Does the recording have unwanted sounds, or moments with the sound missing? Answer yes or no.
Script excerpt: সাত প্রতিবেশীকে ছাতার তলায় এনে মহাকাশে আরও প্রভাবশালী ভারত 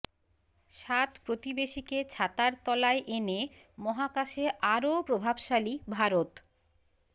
no